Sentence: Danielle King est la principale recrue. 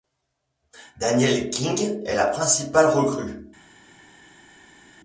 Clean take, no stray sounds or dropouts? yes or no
yes